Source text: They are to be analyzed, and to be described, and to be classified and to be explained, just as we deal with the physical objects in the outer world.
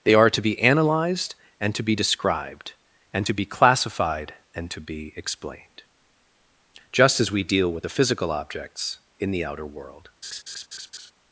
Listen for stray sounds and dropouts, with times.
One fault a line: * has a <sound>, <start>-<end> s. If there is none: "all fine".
* has a laugh, 10.2-11.1 s